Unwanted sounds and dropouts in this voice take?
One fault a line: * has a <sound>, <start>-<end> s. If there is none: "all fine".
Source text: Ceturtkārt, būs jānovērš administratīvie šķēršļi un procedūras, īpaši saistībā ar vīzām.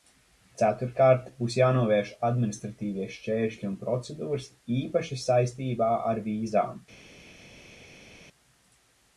all fine